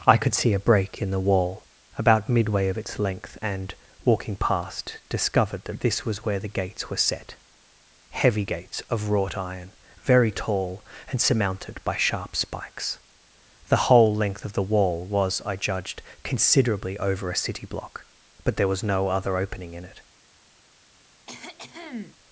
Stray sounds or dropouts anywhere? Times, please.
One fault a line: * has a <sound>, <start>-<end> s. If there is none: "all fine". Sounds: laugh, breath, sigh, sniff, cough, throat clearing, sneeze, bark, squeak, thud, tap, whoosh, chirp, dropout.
* has a cough, 21.3-22.2 s